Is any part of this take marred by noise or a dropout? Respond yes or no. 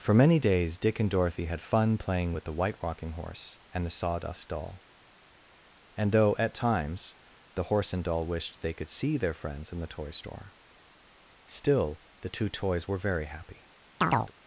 yes